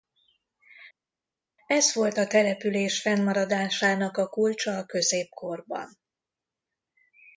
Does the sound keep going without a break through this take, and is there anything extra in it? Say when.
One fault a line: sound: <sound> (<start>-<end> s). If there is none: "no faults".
no faults